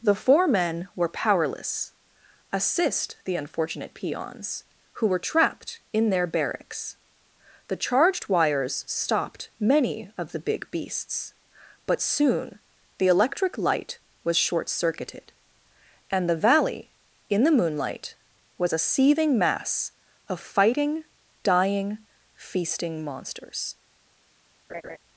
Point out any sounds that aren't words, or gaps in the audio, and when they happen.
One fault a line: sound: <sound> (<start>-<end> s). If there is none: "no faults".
sound: laugh (24.7-25.0 s)